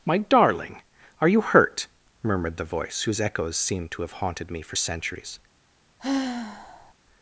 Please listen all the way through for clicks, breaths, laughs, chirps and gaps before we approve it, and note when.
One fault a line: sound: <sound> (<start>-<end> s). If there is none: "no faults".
sound: sigh (6.0-6.9 s)